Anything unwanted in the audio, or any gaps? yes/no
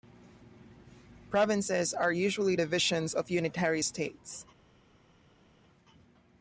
no